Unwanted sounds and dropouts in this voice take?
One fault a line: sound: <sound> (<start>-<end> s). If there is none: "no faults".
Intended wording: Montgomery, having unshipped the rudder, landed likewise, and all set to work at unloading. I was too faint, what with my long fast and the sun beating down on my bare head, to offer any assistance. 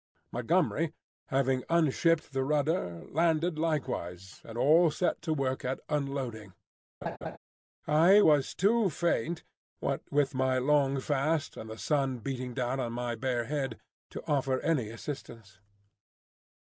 sound: laugh (7.0-7.4 s)